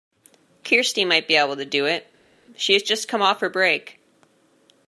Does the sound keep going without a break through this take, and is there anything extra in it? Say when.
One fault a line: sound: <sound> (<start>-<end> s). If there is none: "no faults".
no faults